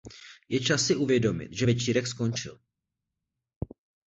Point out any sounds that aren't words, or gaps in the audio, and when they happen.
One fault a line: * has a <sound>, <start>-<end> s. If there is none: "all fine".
all fine